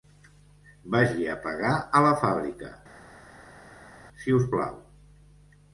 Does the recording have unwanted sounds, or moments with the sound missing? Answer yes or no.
no